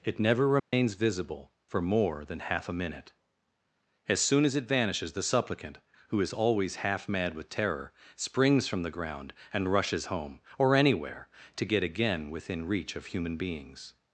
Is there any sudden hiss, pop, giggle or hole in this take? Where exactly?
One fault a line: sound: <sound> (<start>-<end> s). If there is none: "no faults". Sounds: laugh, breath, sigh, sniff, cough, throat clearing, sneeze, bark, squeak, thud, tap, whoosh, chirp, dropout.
sound: dropout (0.6-0.7 s)